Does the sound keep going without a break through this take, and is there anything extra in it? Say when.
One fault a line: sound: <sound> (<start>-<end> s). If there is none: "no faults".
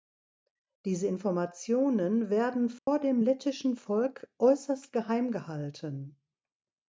sound: dropout (2.8-2.9 s)